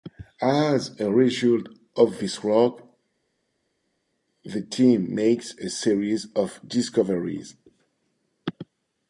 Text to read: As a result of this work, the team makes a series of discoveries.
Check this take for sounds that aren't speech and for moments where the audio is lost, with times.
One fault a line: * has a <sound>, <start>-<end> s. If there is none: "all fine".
all fine